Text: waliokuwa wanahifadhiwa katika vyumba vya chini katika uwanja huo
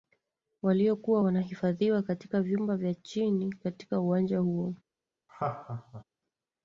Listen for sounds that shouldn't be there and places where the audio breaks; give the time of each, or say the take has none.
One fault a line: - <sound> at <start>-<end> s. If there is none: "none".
- laugh at 5.3-6.0 s